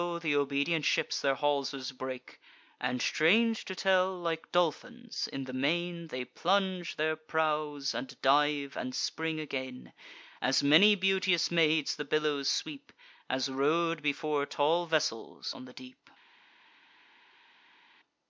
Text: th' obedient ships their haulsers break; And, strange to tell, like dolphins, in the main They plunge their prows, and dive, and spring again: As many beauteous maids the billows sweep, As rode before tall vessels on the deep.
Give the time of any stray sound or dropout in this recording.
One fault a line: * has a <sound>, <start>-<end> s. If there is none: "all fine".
all fine